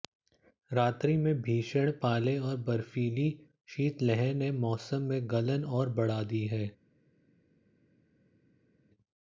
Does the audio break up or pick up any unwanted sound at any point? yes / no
no